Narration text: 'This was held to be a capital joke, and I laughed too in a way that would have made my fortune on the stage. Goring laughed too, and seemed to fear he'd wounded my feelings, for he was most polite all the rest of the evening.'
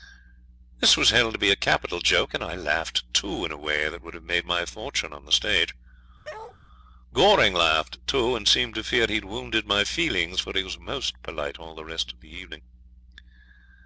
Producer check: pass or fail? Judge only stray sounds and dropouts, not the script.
fail